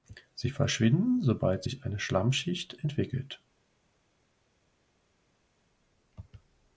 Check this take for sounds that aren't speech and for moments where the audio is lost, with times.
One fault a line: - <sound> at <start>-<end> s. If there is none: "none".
none